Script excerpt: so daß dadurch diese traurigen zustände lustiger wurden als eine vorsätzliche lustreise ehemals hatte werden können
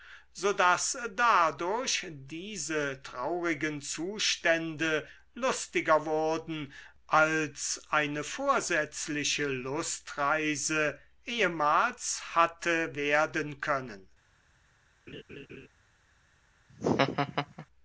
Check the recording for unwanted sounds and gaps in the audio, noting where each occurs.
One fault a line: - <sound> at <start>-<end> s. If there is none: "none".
- laugh at 15.1-15.7 s
- laugh at 16.7-17.7 s